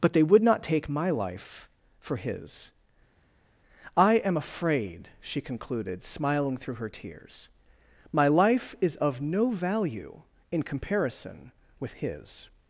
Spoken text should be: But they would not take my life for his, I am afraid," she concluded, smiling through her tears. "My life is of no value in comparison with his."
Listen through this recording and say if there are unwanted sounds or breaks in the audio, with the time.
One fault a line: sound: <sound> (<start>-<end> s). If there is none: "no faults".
no faults